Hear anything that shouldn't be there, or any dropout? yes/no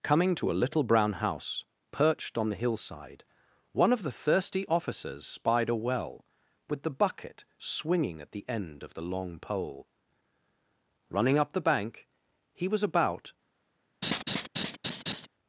yes